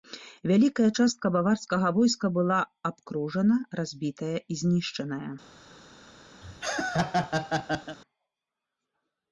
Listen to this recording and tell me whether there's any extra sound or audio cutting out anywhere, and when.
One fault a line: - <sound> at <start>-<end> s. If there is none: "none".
- laugh at 6.4-8.0 s